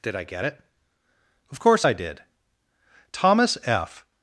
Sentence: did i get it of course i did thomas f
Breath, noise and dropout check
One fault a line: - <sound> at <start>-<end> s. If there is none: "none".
none